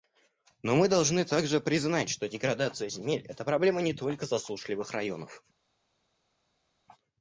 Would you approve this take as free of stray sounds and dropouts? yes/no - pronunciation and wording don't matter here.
yes